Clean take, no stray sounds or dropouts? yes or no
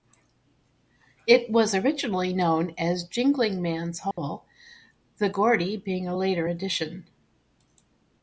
no